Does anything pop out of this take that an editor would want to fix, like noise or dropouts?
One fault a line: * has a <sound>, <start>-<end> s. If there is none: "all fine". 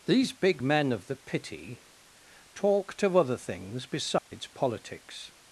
* has a dropout, 4.2-4.3 s